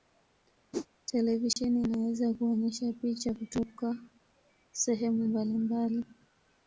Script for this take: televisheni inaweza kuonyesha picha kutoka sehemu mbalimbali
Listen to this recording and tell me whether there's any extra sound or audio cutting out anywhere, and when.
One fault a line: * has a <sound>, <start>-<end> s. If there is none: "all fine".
* has a whoosh, 0.7-0.9 s
* has a dropout, 1.5-1.6 s